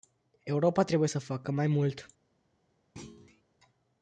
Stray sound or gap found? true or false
true